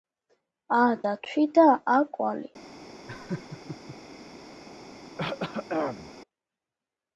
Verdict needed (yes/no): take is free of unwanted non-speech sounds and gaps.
no